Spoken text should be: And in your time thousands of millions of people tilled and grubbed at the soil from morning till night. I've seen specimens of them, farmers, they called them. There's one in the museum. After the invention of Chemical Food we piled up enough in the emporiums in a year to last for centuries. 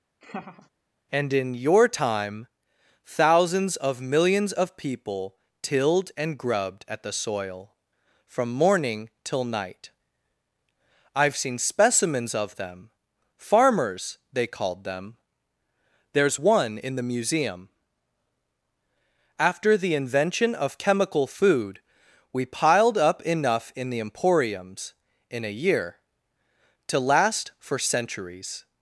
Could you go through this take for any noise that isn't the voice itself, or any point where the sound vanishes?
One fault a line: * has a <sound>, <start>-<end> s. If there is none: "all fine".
* has a laugh, 0.2-0.7 s